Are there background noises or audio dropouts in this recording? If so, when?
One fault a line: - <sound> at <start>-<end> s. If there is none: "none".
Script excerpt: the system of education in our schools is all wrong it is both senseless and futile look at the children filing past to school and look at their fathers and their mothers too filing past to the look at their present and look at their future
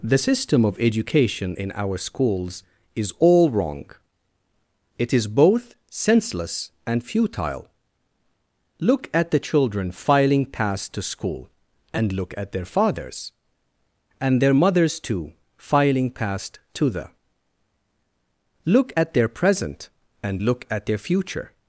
none